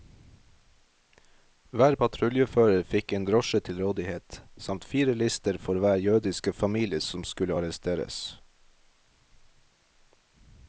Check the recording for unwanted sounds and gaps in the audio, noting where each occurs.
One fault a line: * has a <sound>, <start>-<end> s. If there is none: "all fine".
all fine